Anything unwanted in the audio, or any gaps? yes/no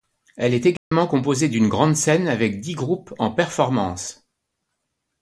yes